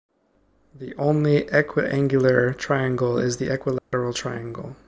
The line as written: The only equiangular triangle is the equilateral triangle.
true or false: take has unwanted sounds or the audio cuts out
true